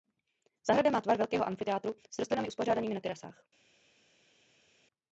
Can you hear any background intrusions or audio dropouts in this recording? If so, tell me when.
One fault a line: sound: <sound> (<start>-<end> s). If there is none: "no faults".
no faults